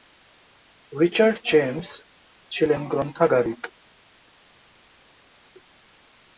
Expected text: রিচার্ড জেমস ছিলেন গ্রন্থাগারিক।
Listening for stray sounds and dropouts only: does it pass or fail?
pass